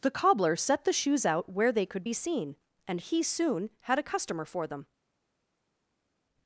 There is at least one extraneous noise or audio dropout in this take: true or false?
false